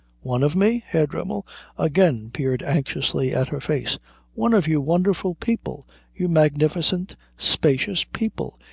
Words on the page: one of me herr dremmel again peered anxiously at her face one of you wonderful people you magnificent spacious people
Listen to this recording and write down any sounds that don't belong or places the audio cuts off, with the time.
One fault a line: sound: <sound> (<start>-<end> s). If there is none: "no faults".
no faults